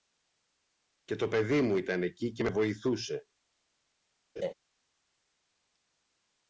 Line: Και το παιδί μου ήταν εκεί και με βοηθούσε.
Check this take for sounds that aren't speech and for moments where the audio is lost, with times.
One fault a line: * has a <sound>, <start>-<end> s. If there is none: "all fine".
* has a laugh, 4.4-4.5 s